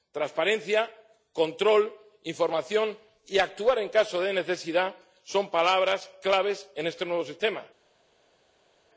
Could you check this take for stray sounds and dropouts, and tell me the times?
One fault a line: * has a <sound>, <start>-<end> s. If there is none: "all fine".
all fine